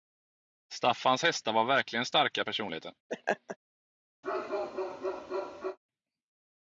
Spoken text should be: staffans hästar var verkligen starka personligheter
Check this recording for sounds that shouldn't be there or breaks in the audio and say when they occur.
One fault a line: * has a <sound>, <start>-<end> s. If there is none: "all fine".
* has a laugh, 3.1-3.6 s
* has a bark, 4.2-5.8 s